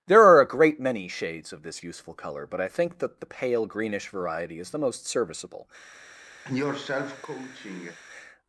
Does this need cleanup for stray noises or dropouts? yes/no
yes